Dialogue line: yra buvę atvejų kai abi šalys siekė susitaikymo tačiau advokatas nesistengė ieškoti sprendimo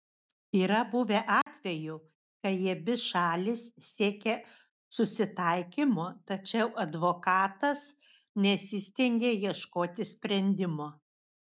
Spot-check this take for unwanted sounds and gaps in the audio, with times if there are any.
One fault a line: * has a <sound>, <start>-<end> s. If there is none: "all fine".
* has a dropout, 1.4-1.5 s